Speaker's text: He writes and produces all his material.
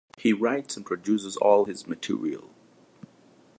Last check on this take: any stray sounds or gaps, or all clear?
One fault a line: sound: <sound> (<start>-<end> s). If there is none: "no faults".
no faults